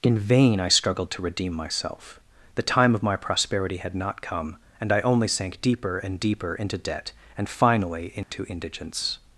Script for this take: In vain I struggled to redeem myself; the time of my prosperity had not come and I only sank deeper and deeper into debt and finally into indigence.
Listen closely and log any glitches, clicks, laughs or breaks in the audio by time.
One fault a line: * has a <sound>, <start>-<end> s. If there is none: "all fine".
* has a dropout, 8.2-8.3 s